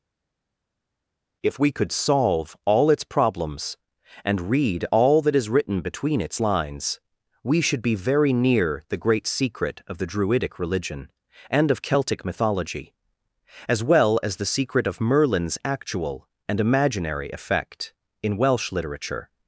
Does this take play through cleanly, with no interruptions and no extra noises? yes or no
yes